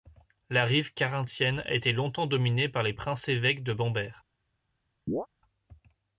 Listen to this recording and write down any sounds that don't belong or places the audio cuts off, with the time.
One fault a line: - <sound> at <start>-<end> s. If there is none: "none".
- chirp at 5.1-5.3 s